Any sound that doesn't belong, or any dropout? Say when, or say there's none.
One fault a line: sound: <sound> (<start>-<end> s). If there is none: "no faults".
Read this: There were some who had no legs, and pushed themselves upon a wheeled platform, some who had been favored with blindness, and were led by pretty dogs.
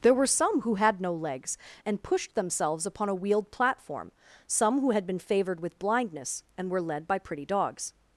no faults